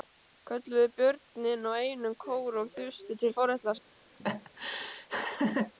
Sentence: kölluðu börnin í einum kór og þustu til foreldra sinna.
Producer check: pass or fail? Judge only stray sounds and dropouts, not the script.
fail